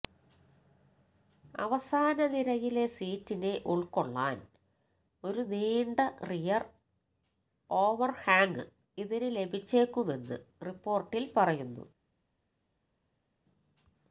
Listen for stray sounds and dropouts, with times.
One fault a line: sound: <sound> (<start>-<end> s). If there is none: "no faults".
no faults